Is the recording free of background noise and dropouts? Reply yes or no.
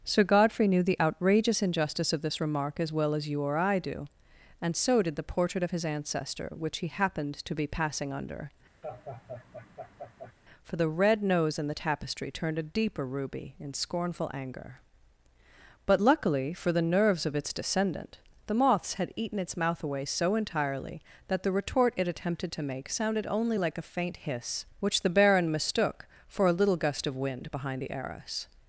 no